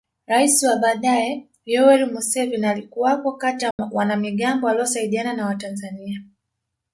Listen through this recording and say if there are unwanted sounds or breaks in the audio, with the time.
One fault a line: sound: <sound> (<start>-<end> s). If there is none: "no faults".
sound: dropout (3.7-3.8 s)